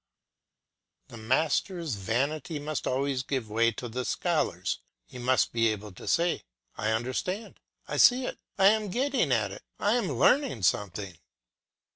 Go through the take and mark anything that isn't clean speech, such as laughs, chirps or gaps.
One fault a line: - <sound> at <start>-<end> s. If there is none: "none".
none